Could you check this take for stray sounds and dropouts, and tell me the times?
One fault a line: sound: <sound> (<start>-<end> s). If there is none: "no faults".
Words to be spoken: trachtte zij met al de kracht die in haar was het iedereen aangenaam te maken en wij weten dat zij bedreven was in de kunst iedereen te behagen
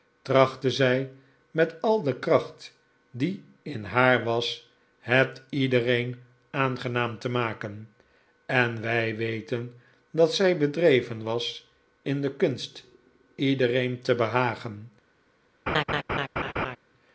sound: laugh (15.7-16.8 s)